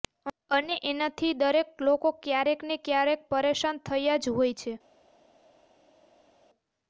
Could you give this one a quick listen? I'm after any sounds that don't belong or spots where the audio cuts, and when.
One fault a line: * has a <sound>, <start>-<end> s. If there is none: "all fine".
all fine